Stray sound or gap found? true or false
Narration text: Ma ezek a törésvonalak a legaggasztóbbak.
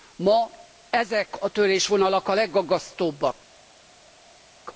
false